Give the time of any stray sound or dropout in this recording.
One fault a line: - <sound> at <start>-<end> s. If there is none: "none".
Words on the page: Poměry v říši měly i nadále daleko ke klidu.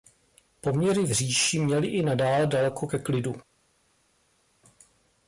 none